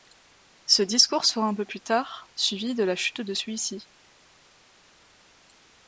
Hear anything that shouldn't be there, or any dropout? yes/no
no